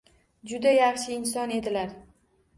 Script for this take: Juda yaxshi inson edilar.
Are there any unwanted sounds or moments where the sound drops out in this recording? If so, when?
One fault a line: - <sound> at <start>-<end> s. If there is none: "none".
none